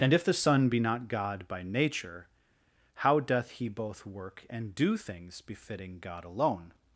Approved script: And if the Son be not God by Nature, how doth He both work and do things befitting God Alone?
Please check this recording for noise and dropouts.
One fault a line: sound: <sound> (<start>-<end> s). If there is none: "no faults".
no faults